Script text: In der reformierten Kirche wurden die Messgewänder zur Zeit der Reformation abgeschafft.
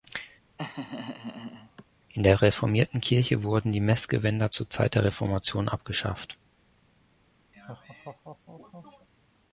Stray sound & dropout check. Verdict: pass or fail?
fail